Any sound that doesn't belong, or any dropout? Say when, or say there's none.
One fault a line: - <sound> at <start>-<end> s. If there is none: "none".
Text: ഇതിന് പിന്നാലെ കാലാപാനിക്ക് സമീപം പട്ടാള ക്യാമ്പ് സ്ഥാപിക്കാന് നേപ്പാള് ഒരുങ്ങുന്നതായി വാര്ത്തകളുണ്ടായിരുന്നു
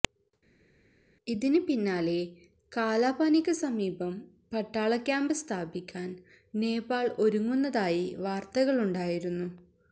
none